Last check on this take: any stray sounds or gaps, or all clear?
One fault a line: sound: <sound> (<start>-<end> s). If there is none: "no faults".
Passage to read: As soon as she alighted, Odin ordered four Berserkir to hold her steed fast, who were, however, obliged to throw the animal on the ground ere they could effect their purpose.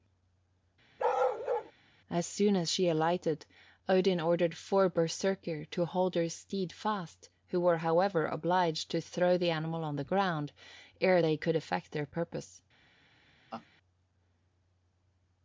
sound: bark (1.0-1.7 s)
sound: laugh (13.5-13.7 s)